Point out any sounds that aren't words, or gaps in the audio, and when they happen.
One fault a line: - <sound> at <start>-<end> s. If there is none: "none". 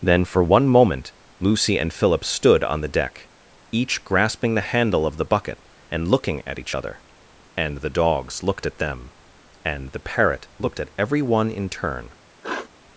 - sniff at 12.4-12.7 s